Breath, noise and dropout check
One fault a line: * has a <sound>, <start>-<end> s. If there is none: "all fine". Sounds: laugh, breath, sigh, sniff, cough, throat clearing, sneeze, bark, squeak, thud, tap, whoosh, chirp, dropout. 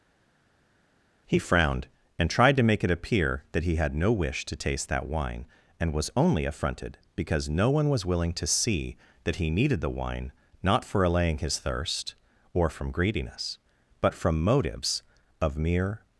all fine